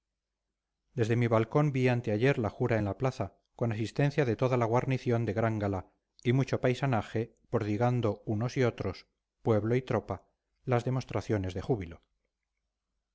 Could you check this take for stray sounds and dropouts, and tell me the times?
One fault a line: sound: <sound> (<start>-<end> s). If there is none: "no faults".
no faults